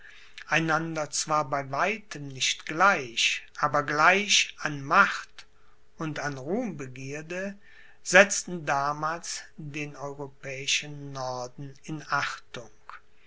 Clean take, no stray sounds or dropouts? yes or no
yes